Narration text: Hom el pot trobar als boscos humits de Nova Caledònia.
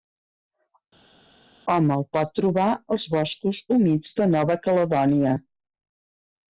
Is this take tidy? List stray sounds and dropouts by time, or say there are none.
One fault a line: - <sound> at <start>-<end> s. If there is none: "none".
none